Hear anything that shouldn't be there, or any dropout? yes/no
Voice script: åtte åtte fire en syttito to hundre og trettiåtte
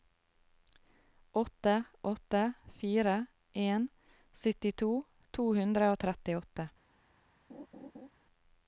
yes